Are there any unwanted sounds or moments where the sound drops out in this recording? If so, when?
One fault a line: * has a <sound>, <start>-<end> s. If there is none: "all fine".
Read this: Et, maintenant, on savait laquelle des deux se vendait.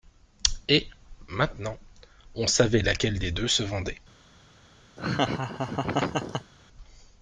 * has a laugh, 5.0-6.5 s